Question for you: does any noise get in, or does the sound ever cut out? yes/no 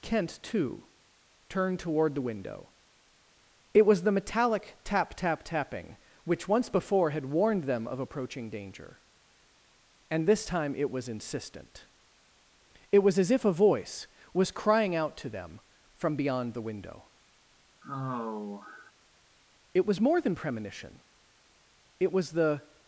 yes